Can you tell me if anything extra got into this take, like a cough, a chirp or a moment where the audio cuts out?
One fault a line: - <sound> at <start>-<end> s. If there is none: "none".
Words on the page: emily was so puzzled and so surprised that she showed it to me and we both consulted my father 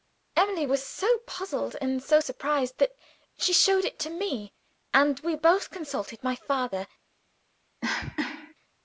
- cough at 7.8-8.5 s